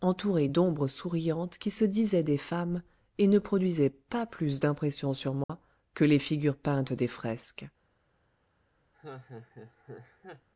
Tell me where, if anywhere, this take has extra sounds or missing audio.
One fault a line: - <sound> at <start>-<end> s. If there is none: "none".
- dropout at 5.4-5.5 s
- laugh at 8.9-10.5 s